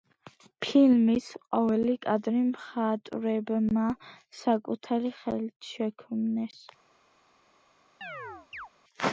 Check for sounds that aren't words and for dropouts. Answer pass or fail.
fail